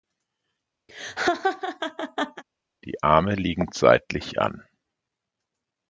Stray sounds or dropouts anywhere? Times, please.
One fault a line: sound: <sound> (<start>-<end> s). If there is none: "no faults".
sound: laugh (0.9-2.4 s)